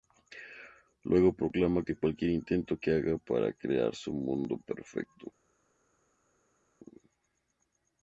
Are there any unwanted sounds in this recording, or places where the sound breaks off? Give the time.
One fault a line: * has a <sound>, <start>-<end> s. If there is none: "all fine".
all fine